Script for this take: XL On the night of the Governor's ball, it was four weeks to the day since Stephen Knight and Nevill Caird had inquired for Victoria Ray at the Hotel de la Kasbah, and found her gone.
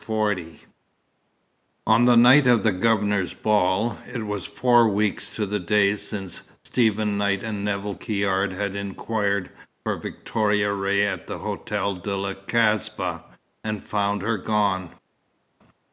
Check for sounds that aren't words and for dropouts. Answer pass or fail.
pass